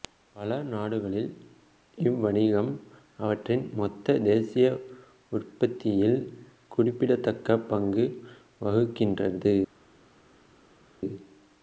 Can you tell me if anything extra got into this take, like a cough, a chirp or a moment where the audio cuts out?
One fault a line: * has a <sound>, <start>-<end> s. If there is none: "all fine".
all fine